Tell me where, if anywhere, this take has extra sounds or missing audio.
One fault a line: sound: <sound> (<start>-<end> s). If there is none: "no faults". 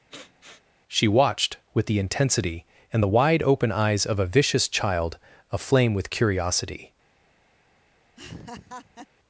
sound: sniff (0.1-0.6 s)
sound: laugh (8.2-9.1 s)